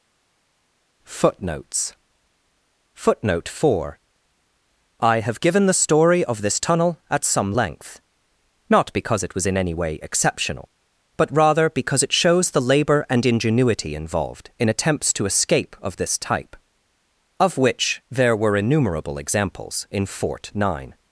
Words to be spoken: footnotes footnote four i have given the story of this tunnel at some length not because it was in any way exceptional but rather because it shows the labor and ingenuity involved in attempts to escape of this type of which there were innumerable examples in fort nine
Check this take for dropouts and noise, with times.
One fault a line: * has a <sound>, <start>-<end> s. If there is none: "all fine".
all fine